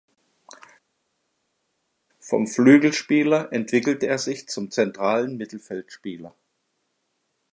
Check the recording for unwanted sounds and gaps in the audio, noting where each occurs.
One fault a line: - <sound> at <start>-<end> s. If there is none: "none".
none